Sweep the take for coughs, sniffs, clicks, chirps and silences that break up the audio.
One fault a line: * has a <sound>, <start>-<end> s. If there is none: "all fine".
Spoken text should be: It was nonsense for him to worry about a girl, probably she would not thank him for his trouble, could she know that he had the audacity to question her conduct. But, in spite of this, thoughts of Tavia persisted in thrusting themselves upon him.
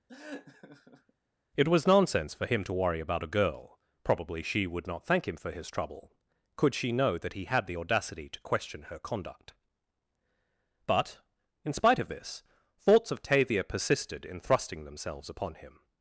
* has a laugh, 0.1-1.1 s